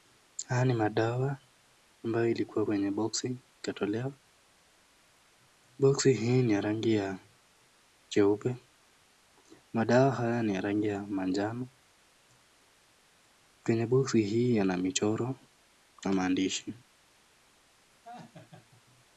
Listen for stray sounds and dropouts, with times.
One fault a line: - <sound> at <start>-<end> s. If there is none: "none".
- laugh at 18.0-18.8 s